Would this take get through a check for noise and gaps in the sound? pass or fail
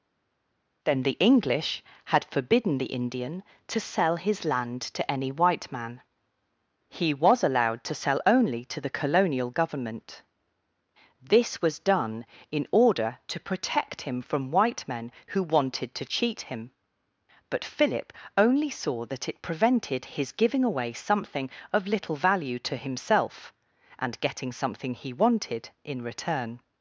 pass